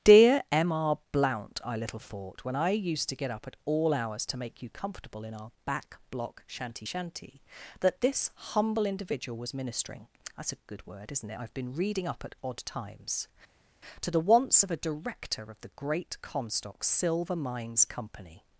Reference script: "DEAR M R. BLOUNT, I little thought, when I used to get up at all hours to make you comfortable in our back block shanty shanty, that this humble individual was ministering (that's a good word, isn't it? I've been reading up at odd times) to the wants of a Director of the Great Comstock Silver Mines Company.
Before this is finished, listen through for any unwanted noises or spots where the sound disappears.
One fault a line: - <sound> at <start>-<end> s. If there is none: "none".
none